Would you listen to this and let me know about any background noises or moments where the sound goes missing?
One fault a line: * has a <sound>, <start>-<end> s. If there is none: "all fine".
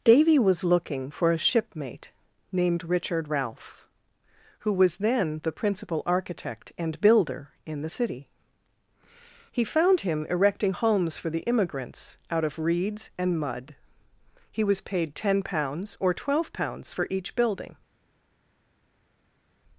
all fine